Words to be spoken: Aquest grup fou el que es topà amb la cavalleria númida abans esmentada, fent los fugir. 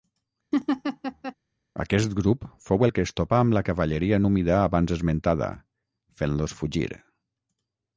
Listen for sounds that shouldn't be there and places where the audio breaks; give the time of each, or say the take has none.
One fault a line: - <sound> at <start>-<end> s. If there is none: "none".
- laugh at 0.5-1.3 s